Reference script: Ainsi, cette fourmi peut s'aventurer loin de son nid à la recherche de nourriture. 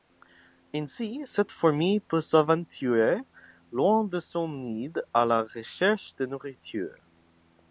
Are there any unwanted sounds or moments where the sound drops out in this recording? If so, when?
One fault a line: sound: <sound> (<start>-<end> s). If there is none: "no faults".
no faults